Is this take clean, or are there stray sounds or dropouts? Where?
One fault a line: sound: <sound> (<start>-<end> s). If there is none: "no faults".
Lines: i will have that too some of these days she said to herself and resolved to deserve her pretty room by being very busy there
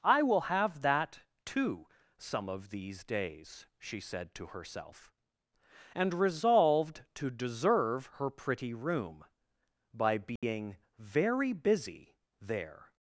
sound: dropout (10.4-10.4 s)